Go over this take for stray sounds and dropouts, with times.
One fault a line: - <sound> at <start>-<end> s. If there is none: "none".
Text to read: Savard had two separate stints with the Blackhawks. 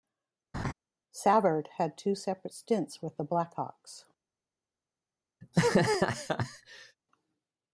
- laugh at 0.5-0.7 s
- laugh at 5.4-7.0 s